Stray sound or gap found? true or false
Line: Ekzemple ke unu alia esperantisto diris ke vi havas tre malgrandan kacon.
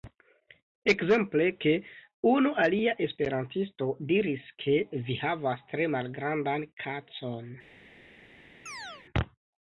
true